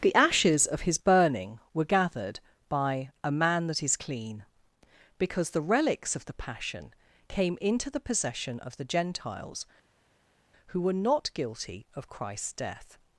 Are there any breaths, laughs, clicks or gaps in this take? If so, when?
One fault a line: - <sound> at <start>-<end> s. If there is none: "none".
none